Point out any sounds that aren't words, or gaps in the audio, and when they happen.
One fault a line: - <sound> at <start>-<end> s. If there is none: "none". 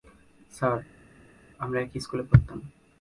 none